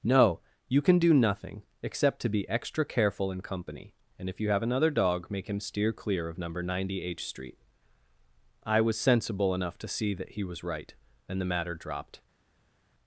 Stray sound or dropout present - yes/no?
no